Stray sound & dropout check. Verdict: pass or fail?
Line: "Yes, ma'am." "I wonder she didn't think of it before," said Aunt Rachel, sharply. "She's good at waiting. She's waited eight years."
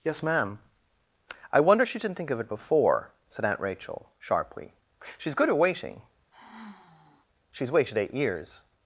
fail